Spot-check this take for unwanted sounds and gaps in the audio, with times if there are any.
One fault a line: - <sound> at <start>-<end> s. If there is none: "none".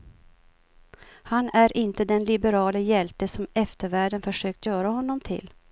none